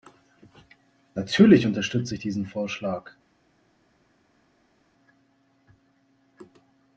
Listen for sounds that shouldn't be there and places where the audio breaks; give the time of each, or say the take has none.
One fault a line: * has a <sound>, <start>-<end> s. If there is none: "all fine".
all fine